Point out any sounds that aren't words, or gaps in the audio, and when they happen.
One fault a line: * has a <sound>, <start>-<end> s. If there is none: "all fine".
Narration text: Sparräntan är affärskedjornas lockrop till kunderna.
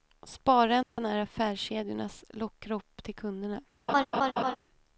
* has a dropout, 0.8-1.0 s
* has a laugh, 3.9-4.6 s